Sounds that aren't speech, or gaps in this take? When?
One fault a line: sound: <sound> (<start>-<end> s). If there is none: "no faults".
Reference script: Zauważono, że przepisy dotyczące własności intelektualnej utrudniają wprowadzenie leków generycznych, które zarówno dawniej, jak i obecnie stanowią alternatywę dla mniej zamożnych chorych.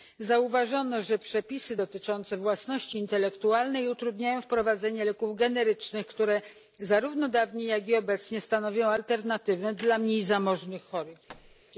sound: thud (11.3-11.6 s)